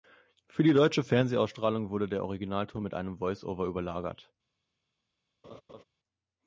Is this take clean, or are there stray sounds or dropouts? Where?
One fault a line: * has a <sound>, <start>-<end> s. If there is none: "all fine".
* has a laugh, 5.4-5.8 s